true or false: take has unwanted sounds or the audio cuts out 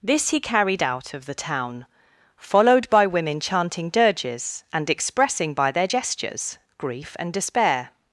false